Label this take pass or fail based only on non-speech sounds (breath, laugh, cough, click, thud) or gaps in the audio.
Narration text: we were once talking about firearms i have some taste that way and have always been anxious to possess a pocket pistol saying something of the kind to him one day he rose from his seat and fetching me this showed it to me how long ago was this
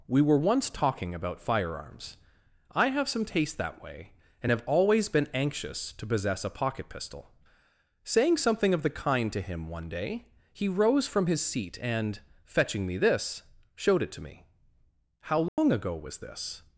fail